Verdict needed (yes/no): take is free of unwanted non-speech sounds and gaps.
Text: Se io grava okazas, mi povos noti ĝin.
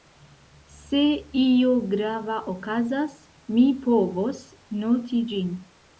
yes